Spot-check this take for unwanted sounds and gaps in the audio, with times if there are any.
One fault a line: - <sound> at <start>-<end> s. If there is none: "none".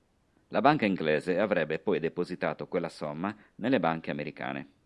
none